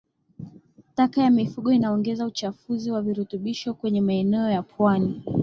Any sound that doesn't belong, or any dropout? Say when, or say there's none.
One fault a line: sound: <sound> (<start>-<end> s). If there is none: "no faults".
no faults